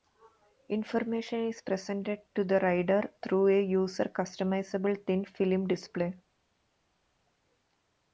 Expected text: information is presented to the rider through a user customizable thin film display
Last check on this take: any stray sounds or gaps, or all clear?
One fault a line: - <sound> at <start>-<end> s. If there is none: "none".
none